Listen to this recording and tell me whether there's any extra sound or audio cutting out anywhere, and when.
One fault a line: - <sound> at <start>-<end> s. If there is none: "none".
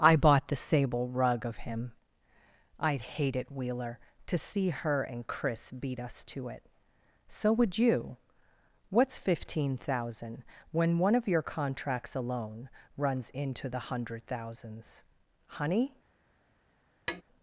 - tap at 17.1-17.2 s